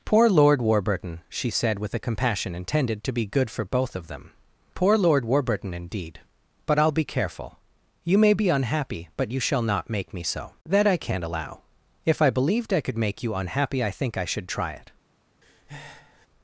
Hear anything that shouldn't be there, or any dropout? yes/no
yes